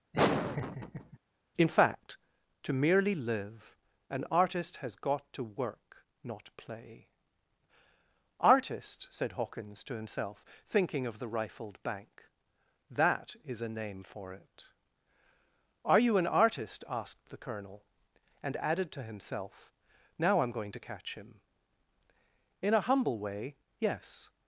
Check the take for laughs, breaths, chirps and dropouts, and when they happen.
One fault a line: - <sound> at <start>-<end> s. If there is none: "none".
- laugh at 0.1-1.2 s